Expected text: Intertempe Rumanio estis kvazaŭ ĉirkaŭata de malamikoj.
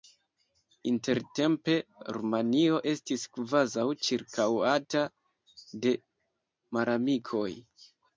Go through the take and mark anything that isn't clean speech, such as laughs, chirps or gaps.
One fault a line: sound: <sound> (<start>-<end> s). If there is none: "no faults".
no faults